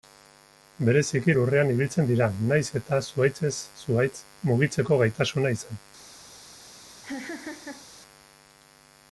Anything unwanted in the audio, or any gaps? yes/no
yes